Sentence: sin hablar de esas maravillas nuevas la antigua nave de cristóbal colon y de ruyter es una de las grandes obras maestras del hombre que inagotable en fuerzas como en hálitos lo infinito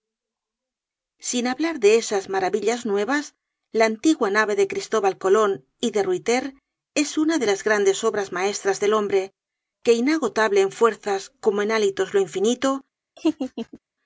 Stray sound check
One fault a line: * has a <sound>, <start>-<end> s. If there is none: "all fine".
* has a laugh, 13.2-13.8 s